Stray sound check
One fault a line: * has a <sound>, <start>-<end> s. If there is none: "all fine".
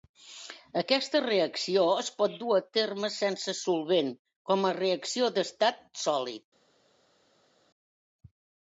all fine